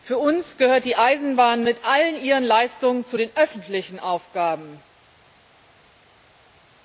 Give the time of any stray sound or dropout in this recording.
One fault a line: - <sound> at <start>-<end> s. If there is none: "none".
none